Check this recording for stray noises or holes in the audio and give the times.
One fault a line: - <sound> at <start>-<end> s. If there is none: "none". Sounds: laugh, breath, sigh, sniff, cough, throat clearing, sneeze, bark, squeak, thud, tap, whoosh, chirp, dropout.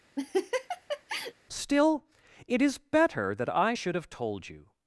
- laugh at 0.2-1.3 s